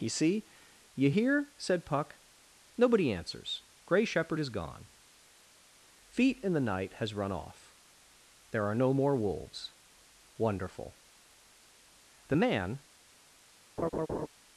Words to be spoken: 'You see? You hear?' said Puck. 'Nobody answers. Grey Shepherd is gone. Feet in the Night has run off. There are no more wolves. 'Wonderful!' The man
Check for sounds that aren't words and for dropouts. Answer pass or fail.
fail